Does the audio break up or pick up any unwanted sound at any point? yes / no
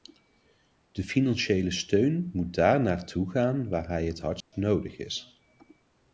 yes